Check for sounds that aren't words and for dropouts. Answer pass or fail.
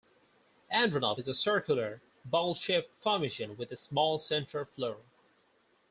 pass